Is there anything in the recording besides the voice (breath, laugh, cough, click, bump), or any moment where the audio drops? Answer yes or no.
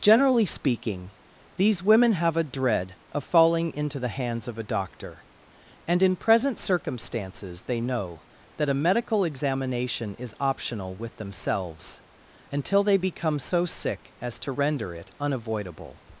no